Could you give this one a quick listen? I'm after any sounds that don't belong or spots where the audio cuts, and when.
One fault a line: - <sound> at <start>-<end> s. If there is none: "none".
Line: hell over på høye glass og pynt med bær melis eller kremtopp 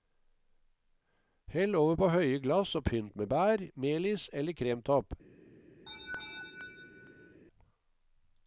- laugh at 5.9-7.4 s